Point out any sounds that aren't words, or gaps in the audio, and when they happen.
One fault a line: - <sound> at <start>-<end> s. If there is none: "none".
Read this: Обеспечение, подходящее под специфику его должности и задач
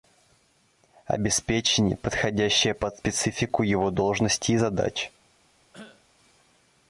- cough at 5.7-6.1 s